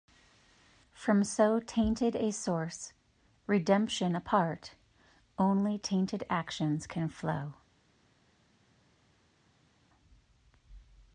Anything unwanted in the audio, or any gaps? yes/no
no